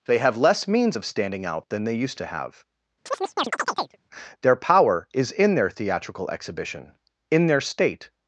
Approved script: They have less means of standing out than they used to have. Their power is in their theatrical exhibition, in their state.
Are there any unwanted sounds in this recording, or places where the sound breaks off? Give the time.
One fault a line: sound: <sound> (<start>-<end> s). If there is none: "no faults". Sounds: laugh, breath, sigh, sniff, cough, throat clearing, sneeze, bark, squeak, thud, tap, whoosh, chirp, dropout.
sound: chirp (3.1-4.0 s)